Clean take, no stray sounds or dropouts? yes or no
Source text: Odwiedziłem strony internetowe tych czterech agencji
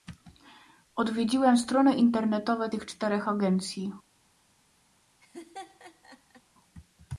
no